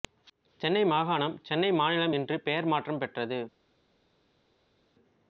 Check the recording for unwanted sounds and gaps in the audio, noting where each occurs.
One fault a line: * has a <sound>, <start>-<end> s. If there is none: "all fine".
all fine